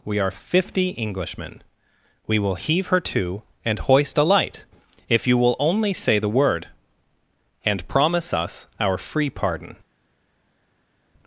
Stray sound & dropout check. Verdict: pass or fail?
pass